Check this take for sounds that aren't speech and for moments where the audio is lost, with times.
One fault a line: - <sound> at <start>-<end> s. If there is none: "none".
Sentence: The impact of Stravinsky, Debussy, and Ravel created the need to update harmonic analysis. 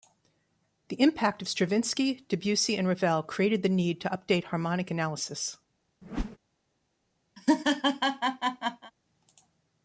- whoosh at 6.0-6.4 s
- laugh at 7.4-8.9 s